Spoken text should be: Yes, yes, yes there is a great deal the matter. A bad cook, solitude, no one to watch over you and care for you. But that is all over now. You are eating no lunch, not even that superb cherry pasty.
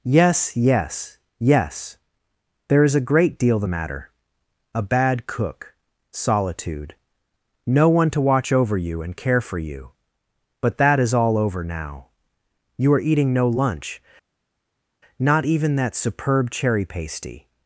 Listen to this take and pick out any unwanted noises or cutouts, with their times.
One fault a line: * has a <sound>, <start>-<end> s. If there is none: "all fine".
all fine